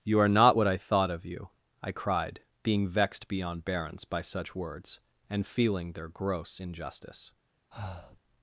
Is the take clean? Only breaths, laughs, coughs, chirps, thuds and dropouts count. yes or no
no